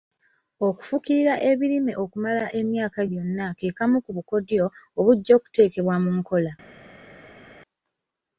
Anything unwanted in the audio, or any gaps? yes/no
no